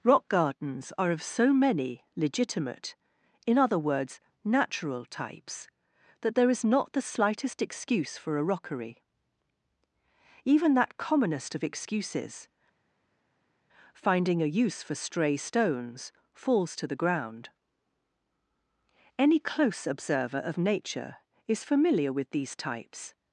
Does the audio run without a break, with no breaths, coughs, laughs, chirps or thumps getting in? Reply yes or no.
yes